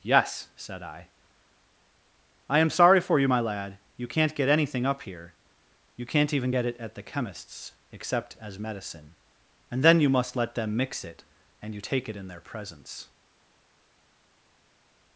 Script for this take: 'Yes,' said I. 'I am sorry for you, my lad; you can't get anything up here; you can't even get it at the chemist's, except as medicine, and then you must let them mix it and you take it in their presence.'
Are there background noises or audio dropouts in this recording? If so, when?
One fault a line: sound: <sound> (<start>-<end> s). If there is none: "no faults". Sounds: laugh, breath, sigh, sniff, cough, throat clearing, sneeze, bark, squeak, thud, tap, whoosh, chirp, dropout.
no faults